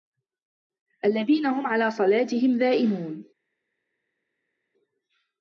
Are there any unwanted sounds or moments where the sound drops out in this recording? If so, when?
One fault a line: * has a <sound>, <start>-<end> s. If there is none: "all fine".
all fine